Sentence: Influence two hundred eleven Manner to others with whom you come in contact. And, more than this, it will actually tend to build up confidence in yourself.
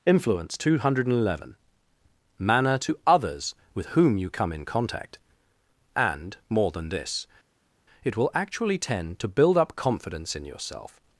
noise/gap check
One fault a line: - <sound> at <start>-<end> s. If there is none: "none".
none